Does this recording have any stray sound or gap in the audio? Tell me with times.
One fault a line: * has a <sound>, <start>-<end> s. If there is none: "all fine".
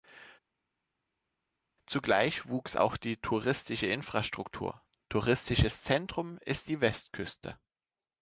all fine